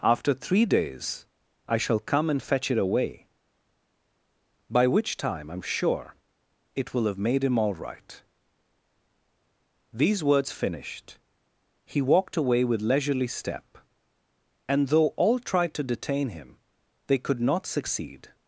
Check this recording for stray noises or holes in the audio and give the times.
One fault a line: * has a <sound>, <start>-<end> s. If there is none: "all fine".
all fine